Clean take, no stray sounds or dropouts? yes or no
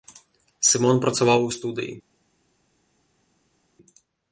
yes